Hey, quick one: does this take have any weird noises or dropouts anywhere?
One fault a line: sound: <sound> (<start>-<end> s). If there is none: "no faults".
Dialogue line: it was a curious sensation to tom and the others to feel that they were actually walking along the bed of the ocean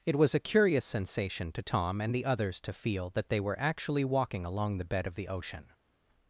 no faults